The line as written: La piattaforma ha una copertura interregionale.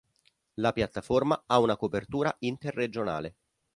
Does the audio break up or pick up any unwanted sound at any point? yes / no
no